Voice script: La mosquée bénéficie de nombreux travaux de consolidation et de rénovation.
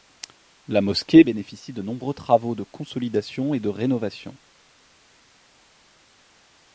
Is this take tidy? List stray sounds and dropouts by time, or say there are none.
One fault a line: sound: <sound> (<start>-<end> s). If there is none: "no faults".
no faults